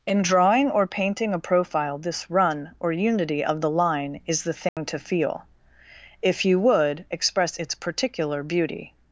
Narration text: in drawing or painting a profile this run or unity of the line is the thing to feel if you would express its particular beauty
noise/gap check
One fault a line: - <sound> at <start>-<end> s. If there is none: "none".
- dropout at 4.7-4.8 s